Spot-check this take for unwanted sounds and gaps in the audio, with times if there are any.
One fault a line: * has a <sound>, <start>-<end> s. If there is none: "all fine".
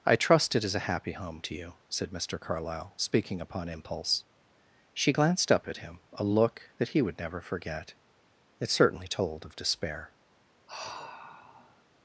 * has a sigh, 10.7-11.8 s